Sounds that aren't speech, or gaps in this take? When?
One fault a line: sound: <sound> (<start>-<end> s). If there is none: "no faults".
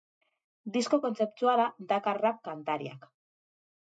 no faults